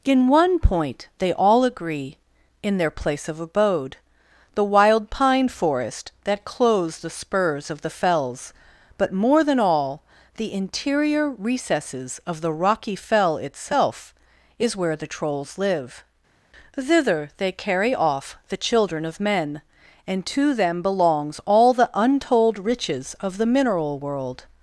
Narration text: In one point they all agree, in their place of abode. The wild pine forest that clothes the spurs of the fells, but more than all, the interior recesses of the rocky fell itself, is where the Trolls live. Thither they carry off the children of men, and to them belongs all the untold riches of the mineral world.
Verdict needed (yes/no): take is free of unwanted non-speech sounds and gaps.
yes